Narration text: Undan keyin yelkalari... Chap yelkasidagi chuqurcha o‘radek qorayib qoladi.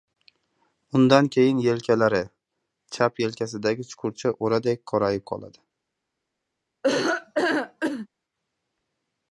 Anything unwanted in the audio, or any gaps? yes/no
yes